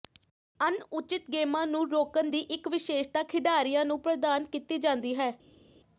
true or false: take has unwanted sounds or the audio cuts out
false